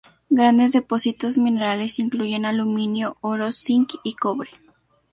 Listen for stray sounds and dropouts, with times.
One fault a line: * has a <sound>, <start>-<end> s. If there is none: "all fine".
all fine